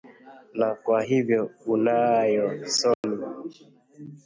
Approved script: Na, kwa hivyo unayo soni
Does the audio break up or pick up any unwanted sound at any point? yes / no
yes